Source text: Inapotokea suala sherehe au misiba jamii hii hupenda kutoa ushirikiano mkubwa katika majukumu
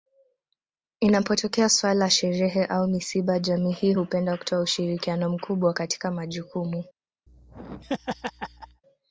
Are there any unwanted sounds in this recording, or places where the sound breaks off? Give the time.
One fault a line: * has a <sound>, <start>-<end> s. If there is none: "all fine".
* has a laugh, 7.3-8.8 s